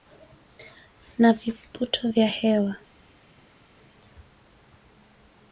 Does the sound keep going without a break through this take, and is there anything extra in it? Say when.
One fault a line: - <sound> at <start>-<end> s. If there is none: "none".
none